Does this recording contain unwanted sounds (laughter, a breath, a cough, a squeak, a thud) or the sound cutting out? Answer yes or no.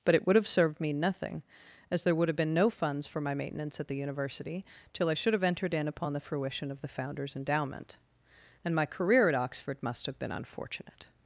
no